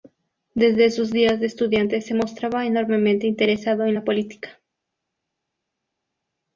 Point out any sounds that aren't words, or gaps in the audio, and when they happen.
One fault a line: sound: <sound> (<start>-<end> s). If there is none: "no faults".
no faults